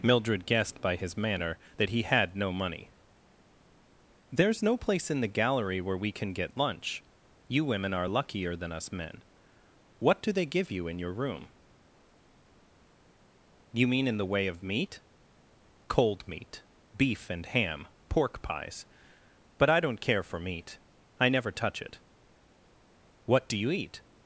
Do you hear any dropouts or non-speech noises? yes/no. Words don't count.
no